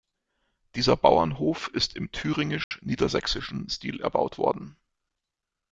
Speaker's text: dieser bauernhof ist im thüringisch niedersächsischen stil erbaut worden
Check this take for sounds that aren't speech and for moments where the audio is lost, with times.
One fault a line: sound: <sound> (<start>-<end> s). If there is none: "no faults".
sound: dropout (2.6-2.7 s)